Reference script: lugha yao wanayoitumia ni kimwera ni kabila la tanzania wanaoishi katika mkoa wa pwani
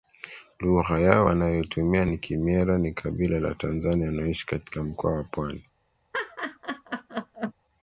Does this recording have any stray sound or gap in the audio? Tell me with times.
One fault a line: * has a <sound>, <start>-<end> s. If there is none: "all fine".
* has a laugh, 6.1-7.5 s